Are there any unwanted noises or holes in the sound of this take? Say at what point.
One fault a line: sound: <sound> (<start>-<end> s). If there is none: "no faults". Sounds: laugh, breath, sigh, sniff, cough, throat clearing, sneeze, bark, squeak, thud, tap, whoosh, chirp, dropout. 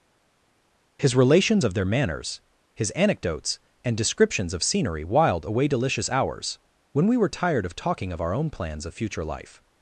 no faults